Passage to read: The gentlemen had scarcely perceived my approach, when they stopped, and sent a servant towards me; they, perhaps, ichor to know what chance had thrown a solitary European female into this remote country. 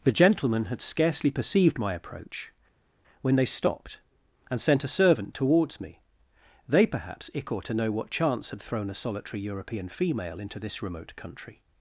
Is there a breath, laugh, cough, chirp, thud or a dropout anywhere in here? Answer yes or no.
no